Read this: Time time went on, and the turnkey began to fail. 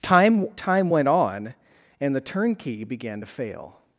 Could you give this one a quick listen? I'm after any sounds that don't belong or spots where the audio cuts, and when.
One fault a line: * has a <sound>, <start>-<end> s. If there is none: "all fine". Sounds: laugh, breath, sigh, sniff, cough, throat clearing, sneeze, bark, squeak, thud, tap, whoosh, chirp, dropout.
all fine